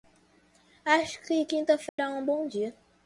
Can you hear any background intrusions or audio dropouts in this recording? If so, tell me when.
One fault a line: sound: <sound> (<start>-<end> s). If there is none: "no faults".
sound: dropout (1.9-2.0 s)